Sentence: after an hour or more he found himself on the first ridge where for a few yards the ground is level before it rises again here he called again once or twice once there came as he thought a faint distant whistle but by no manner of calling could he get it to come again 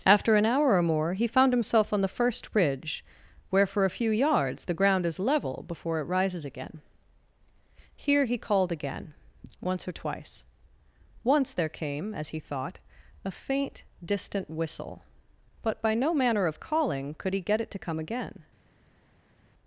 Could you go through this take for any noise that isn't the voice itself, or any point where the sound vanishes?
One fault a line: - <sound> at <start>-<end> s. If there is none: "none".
none